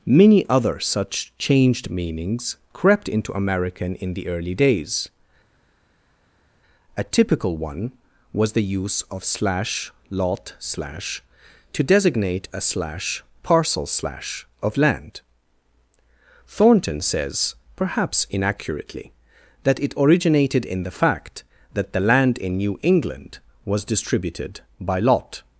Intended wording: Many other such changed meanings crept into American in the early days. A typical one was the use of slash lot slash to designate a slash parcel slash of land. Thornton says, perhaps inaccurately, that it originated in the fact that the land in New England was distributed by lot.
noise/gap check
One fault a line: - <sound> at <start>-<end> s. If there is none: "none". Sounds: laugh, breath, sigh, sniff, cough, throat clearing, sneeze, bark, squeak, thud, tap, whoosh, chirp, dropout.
none